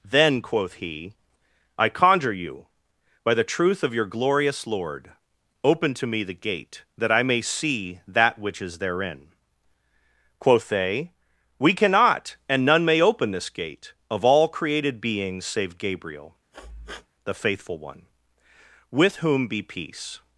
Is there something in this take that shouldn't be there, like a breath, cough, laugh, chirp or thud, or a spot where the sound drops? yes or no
yes